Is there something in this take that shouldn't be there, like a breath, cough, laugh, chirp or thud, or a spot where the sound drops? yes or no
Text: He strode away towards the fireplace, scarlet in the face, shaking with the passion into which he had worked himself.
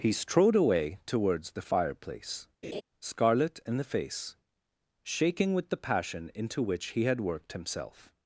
yes